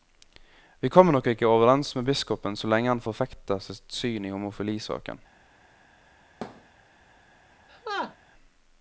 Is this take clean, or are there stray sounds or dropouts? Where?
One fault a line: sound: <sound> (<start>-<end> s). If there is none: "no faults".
sound: thud (6.4-6.7 s)
sound: laugh (7.7-8.2 s)